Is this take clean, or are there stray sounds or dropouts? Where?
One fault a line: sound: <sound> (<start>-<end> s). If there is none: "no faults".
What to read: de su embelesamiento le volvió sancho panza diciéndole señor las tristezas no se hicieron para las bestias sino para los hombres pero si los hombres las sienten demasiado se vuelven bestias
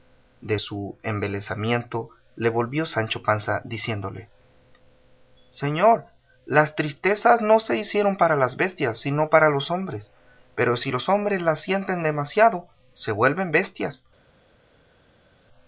no faults